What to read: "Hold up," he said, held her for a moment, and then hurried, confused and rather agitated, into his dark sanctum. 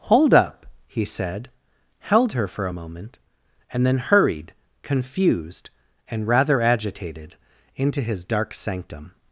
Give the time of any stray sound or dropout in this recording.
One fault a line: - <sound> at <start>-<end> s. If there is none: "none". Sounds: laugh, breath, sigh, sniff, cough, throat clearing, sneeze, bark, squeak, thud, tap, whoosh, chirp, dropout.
none